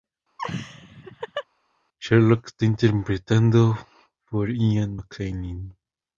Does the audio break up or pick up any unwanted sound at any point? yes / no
yes